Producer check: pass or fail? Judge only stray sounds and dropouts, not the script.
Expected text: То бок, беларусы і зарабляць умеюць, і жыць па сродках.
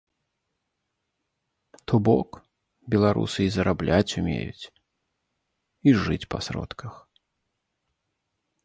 pass